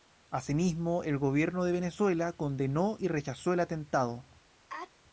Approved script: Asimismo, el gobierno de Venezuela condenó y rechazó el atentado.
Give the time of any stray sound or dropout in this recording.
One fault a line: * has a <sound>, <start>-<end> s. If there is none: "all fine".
* has a sneeze, 4.7-4.9 s